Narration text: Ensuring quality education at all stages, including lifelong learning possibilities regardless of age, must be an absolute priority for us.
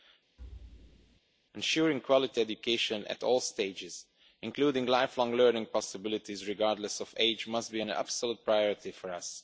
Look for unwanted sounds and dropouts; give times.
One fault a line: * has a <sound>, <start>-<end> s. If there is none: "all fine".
* has a thud, 0.4-1.2 s